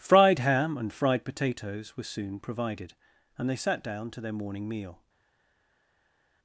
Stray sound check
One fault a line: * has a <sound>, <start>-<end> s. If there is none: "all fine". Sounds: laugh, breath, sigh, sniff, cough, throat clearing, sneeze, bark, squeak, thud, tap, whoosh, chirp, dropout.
all fine